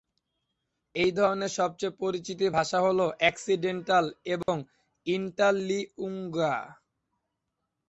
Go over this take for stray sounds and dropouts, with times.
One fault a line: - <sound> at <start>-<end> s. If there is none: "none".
- dropout at 4.4-4.5 s